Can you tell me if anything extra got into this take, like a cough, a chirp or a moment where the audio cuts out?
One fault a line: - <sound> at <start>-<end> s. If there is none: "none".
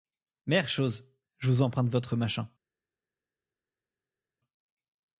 none